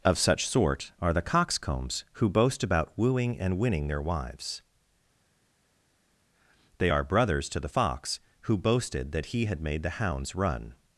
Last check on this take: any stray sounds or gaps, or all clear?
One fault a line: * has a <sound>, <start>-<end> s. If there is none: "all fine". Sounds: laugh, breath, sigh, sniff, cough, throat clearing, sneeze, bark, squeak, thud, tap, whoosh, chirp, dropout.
all fine